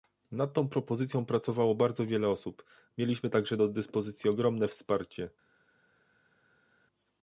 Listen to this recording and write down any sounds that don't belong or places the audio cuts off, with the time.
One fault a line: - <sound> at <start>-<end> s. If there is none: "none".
none